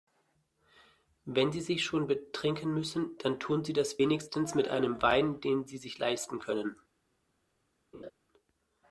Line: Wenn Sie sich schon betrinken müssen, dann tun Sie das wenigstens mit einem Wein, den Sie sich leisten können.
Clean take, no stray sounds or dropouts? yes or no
no